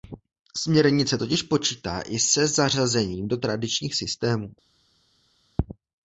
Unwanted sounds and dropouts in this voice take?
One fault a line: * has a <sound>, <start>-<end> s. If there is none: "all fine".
all fine